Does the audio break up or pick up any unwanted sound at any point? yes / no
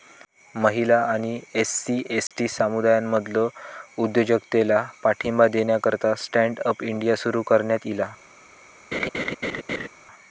yes